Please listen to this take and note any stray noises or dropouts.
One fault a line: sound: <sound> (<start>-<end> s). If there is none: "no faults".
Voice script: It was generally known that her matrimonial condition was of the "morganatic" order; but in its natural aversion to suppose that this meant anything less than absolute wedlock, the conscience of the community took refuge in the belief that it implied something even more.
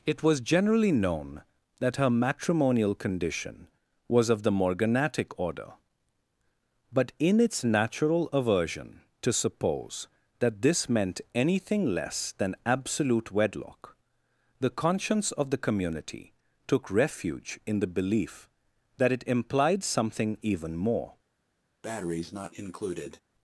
sound: breath (21.8-23.2 s)